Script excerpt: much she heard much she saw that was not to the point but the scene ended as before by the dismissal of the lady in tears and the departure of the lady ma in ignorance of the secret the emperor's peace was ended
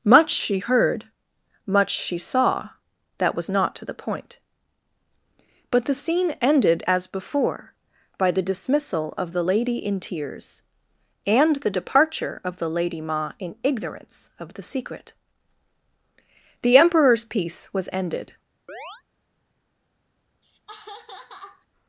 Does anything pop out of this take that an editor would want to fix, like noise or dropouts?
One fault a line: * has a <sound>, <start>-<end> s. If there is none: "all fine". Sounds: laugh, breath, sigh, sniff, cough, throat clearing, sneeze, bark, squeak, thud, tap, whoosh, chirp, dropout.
* has a chirp, 18.7-19.0 s
* has a laugh, 20.4-21.7 s